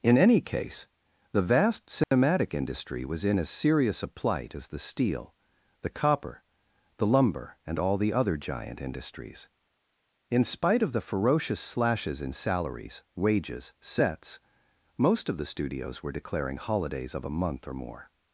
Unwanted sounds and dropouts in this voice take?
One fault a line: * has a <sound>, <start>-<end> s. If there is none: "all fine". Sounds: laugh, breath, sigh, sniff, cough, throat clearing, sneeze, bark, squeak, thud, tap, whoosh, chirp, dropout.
* has a dropout, 2.0-2.1 s